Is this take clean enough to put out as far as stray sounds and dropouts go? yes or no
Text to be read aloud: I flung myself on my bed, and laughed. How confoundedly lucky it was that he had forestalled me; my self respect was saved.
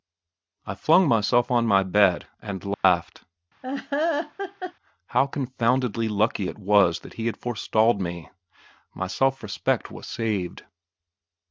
no